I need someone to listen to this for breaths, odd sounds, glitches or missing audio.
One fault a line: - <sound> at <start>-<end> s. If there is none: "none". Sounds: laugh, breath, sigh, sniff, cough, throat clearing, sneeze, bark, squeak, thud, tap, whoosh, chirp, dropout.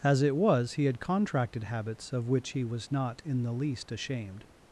none